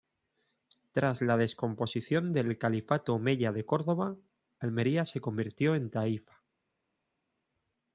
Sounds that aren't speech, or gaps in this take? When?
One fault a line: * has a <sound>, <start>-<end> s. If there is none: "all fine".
all fine